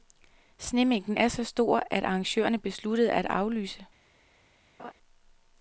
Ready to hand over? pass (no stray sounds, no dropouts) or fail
fail